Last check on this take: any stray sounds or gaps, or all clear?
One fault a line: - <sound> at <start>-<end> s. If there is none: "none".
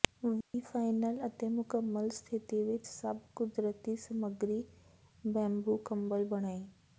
- dropout at 0.4-0.5 s